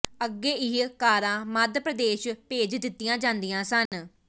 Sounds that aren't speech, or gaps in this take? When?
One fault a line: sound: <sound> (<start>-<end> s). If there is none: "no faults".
sound: dropout (3.9-3.9 s)